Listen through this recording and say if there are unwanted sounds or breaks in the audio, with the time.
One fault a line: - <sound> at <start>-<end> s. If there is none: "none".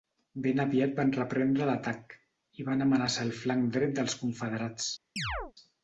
- chirp at 5.2-5.5 s